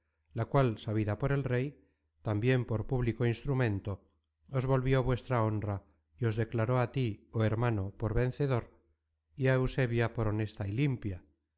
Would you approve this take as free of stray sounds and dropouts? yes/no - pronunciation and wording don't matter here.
yes